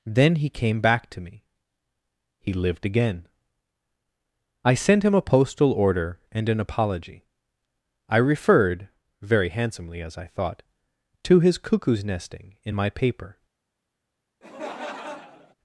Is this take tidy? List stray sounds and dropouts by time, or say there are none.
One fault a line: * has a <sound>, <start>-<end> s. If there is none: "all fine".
* has a laugh, 14.4-15.5 s